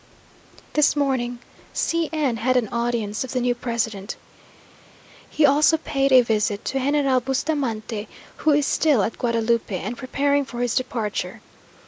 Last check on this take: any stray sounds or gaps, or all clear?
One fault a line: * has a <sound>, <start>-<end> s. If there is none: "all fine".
all fine